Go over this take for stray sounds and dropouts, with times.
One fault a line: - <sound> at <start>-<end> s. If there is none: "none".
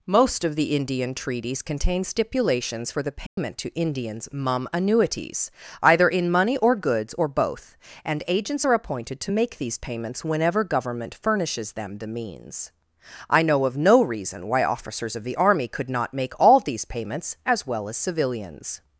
- dropout at 3.3-3.4 s